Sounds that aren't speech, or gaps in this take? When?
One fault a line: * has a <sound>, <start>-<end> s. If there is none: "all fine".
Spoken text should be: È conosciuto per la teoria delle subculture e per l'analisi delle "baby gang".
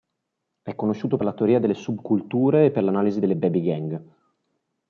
all fine